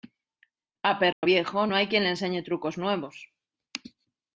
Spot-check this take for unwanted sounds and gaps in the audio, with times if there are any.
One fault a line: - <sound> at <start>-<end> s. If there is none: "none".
- dropout at 1.1-1.2 s